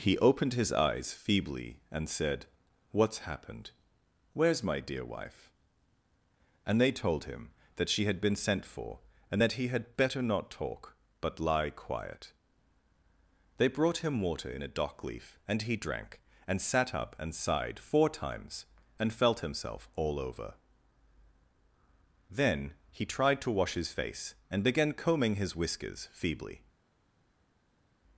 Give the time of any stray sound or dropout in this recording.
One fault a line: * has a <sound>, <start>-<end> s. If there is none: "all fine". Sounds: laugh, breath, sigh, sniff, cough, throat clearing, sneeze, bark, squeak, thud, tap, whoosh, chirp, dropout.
all fine